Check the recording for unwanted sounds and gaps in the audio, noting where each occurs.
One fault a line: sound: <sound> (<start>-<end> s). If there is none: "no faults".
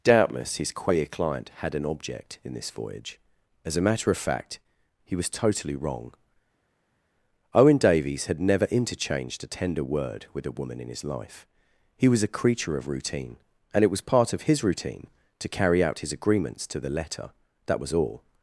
no faults